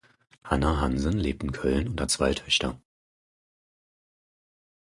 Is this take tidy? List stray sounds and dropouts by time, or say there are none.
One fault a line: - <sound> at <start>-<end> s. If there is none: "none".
none